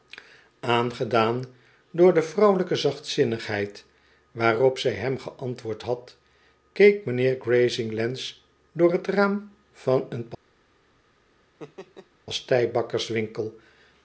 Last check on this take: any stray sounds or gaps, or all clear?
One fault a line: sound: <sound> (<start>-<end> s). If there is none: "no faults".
sound: laugh (11.6-12.1 s)